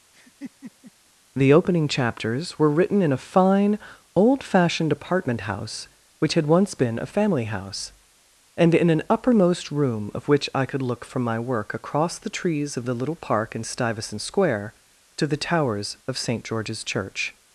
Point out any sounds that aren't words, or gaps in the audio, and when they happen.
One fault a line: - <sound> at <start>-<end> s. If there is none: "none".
- laugh at 0.1-0.9 s